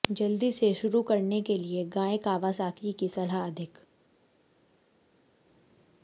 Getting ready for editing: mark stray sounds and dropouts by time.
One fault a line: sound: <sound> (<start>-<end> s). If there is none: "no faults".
no faults